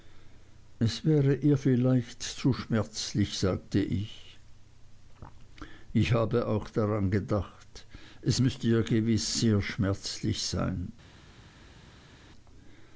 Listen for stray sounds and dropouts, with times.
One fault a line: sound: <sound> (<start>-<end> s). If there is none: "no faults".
no faults